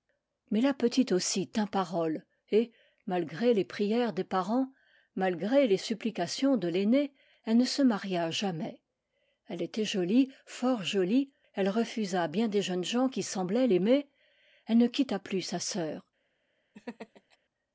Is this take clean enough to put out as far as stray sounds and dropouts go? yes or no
no